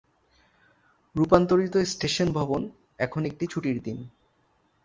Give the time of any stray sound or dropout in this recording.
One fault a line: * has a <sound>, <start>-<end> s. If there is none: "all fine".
all fine